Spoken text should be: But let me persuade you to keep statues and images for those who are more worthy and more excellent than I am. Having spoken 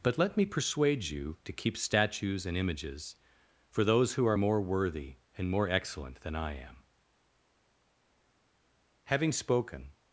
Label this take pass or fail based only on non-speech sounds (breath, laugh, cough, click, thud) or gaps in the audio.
pass